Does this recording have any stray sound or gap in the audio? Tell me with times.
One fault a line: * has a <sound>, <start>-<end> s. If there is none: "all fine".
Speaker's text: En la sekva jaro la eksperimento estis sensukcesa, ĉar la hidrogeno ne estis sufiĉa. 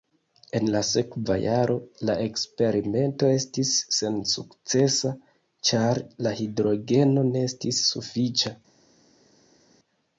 all fine